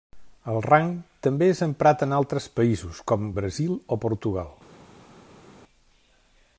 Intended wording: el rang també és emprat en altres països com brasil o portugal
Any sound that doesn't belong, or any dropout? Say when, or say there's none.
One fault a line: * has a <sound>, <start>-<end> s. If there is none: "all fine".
all fine